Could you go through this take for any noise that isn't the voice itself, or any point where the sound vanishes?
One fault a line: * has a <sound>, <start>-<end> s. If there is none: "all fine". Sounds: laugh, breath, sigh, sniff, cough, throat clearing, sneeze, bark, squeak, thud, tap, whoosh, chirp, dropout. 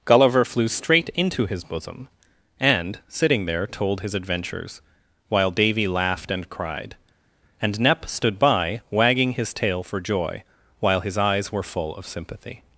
all fine